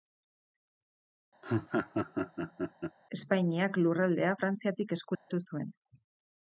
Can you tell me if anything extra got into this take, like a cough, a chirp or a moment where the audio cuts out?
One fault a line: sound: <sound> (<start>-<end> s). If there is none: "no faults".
sound: laugh (1.4-3.0 s)
sound: dropout (5.1-5.3 s)